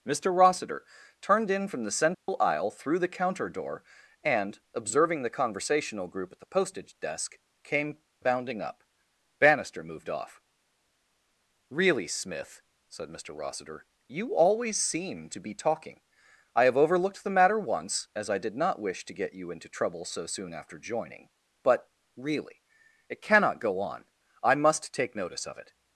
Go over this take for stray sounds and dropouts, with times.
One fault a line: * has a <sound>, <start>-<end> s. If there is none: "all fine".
* has a dropout, 2.1-2.3 s